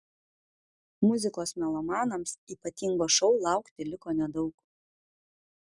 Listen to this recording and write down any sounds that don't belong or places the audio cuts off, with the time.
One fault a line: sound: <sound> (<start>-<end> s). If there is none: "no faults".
no faults